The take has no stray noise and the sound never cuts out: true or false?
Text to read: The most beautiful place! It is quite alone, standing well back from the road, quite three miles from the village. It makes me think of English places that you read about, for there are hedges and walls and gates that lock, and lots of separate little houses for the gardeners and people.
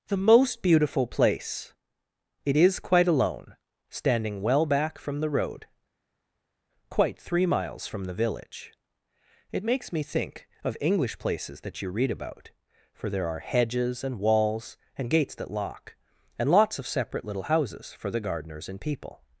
true